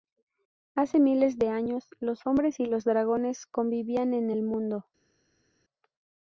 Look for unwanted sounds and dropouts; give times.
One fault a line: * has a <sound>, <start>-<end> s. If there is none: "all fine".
all fine